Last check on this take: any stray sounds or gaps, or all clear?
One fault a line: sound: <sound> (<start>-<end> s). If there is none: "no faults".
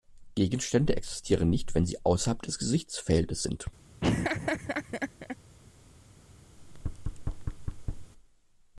sound: laugh (4.0-5.4 s)
sound: thud (6.6-8.1 s)